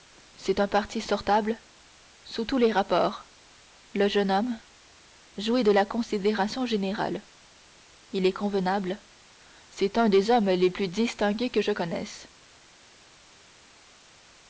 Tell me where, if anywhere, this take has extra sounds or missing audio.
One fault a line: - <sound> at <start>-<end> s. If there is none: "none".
none